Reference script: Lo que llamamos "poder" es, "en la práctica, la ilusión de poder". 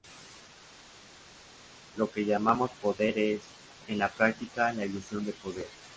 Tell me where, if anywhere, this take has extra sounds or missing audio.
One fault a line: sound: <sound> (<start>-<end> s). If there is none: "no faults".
no faults